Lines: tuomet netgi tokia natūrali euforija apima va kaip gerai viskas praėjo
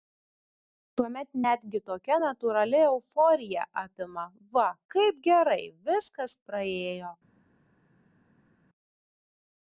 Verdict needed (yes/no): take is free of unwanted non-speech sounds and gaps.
yes